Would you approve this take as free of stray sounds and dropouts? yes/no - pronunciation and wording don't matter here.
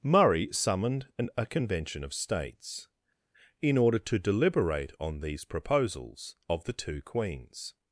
yes